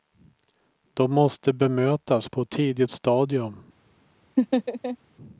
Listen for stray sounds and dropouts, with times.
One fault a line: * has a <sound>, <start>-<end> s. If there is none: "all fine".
* has a laugh, 4.4-5.0 s